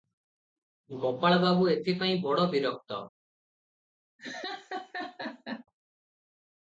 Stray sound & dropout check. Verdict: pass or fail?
fail